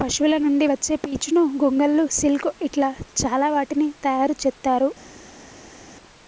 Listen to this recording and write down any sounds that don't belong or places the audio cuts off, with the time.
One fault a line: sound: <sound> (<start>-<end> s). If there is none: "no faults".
no faults